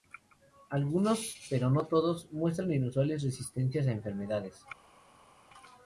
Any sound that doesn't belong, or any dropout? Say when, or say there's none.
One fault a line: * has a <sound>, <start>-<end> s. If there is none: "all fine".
all fine